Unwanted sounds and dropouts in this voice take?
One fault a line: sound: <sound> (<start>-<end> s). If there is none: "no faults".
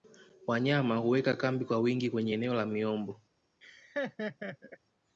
sound: laugh (3.6-4.8 s)